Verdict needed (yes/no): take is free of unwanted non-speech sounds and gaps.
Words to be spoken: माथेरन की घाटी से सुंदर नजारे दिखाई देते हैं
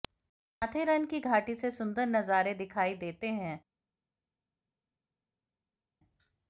yes